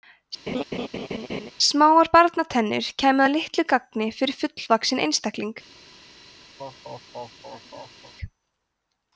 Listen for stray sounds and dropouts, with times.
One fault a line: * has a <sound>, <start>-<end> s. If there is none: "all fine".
* has a laugh, 0.5-1.5 s
* has a laugh, 6.6-8.1 s